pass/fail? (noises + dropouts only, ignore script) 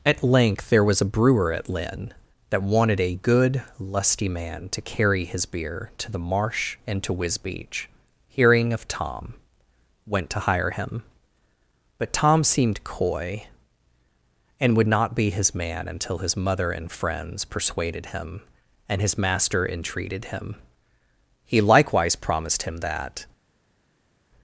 pass